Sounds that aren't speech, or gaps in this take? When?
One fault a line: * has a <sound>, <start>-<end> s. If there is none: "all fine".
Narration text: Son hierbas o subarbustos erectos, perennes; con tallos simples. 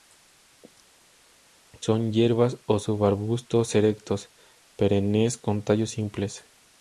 all fine